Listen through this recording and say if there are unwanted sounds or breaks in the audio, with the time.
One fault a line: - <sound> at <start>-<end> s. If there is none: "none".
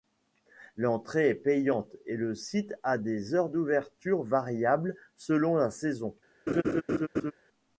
- laugh at 6.5-7.3 s